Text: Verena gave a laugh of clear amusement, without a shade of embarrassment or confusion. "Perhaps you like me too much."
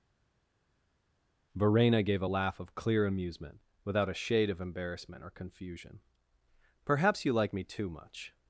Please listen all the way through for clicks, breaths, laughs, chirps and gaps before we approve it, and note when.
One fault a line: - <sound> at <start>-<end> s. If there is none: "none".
none